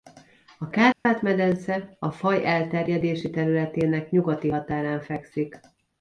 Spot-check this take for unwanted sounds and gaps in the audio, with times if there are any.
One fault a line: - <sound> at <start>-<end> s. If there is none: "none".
- dropout at 0.9-1.1 s